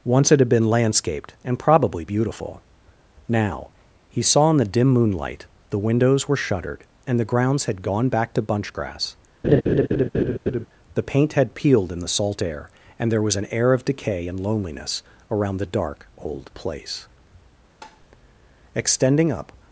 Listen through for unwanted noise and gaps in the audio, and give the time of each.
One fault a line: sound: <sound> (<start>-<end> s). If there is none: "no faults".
sound: laugh (9.4-10.7 s)
sound: tap (17.8-18.1 s)